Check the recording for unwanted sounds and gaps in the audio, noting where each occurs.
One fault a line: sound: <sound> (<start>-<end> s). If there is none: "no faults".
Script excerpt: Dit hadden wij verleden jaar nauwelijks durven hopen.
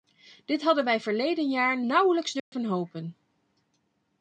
sound: dropout (2.4-2.5 s)